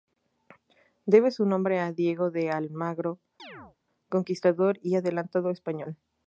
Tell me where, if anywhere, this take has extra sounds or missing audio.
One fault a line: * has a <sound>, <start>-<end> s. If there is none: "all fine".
* has a chirp, 3.4-3.8 s